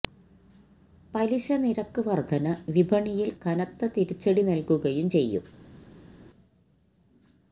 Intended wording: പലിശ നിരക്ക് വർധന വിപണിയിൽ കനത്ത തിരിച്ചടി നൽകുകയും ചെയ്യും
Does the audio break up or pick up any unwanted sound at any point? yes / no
no